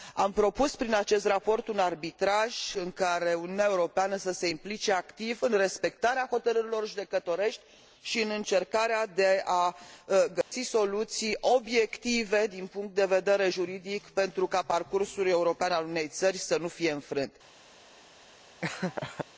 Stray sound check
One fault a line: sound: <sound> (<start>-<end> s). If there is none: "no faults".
sound: dropout (10.4-10.5 s)
sound: laugh (18.6-19.3 s)